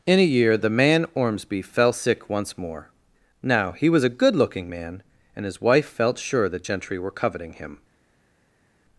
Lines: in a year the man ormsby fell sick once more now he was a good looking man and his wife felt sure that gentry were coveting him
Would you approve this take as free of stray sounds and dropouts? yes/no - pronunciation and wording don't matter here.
yes